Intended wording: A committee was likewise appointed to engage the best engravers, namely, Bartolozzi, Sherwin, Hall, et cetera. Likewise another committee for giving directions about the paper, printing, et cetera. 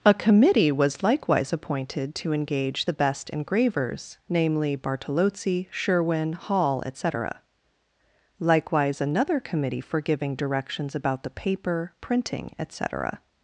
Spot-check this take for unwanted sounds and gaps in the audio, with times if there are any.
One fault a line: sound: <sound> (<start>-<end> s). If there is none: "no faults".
no faults